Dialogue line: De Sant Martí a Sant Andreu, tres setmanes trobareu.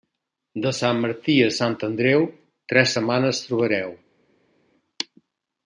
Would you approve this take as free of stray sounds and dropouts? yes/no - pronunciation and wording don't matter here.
yes